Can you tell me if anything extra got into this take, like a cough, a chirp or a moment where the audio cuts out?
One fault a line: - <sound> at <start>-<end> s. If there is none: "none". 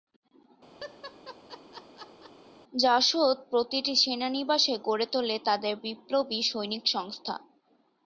- laugh at 0.8-2.3 s